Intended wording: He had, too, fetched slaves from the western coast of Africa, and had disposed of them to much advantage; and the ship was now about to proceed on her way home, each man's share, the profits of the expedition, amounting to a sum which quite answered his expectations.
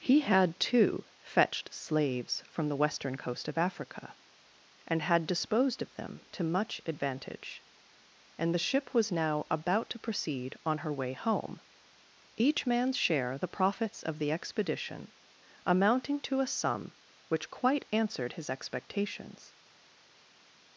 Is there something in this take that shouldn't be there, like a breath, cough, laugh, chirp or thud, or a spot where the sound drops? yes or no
no